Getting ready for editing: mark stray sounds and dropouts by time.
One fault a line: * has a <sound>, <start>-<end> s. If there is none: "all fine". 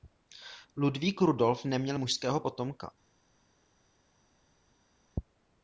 all fine